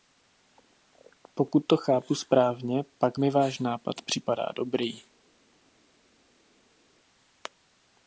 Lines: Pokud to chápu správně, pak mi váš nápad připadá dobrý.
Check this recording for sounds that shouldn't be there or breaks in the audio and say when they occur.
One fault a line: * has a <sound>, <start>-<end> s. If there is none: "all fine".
all fine